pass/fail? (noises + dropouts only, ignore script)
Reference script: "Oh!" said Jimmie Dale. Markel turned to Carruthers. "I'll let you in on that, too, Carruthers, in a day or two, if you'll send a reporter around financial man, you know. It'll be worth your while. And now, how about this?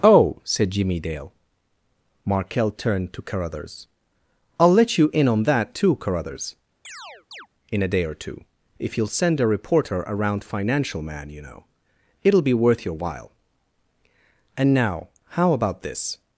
fail